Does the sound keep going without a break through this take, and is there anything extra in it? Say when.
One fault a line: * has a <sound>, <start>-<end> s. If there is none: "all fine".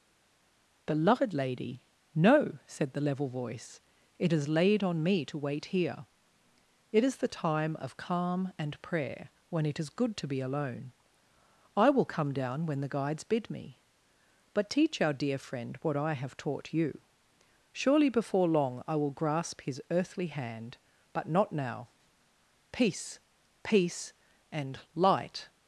all fine